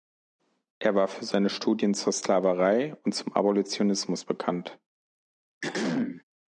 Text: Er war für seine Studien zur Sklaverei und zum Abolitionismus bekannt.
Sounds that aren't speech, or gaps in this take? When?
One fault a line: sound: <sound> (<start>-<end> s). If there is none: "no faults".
sound: throat clearing (5.6-6.2 s)